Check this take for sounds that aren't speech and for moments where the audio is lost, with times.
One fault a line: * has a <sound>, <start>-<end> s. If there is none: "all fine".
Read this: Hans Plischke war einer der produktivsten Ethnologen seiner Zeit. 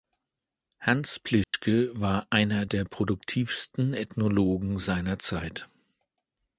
* has a dropout, 1.4-1.5 s